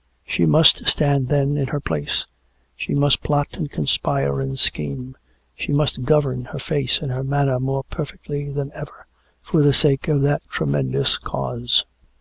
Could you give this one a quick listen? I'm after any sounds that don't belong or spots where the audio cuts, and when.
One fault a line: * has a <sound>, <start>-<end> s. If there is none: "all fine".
all fine